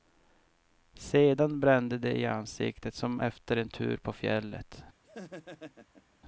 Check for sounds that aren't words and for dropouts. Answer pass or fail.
fail